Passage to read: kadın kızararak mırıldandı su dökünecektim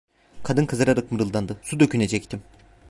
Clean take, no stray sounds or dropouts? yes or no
yes